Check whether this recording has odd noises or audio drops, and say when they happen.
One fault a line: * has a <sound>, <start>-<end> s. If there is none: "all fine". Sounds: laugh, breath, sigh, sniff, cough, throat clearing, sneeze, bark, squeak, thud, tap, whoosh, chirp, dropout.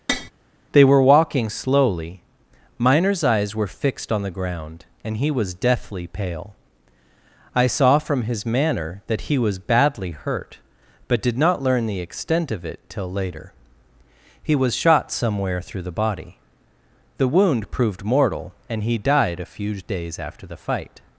* has a tap, 0.1-0.3 s